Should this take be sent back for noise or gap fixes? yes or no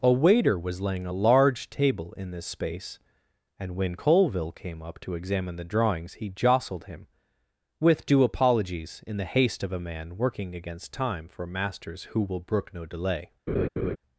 yes